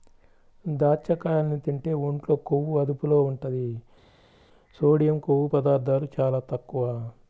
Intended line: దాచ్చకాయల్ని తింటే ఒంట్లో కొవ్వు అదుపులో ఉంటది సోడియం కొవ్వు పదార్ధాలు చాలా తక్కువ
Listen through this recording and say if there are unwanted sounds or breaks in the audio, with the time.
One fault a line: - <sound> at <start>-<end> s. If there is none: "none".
none